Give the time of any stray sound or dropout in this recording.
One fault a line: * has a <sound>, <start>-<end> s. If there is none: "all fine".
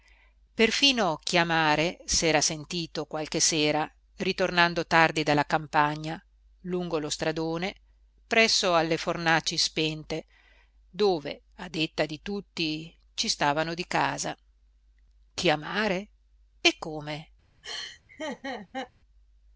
* has a laugh, 17.6-18.9 s